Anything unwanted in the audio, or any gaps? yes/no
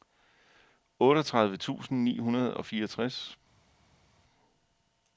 no